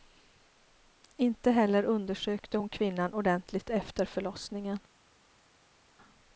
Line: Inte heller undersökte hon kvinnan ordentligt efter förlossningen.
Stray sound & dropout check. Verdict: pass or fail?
pass